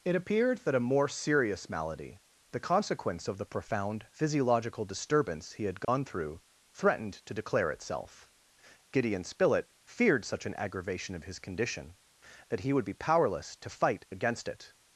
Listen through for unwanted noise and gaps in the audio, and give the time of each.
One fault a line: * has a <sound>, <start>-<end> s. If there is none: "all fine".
* has a dropout, 5.8-5.9 s